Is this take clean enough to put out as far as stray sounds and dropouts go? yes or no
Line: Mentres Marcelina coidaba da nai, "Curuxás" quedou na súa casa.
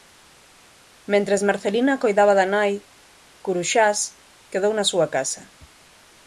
yes